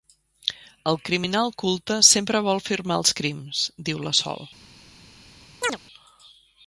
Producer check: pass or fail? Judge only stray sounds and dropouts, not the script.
fail